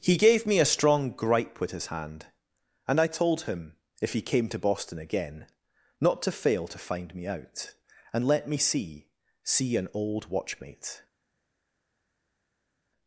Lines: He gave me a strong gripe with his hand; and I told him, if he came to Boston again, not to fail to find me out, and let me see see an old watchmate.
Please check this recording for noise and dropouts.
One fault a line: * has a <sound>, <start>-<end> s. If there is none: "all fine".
all fine